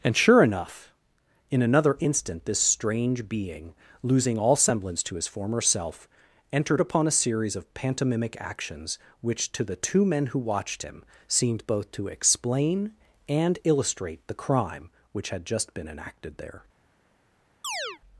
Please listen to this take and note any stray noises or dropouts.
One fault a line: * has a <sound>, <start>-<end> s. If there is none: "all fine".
* has a chirp, 17.6-18.0 s